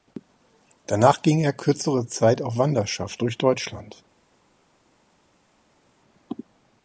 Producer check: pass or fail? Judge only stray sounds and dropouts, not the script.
pass